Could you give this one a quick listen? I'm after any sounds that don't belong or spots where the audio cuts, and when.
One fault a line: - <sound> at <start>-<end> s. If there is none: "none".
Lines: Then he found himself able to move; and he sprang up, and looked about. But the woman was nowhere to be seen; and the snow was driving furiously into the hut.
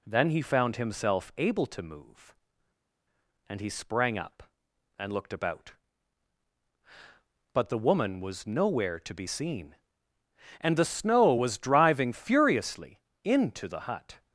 none